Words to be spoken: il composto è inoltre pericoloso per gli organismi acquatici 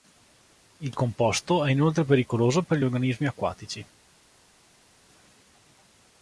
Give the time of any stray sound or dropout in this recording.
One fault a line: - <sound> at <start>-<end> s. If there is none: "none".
none